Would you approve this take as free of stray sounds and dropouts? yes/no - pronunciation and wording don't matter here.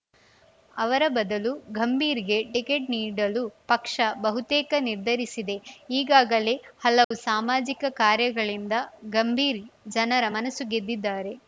no